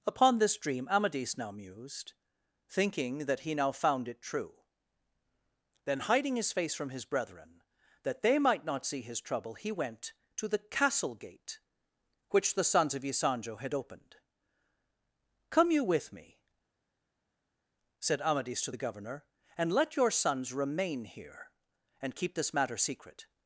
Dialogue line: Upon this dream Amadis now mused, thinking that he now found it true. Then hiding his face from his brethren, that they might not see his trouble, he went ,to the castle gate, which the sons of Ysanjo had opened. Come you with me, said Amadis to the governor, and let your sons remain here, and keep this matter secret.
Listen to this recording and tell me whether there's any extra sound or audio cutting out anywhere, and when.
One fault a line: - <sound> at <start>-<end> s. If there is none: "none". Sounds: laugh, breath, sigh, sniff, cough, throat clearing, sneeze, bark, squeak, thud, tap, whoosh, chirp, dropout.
none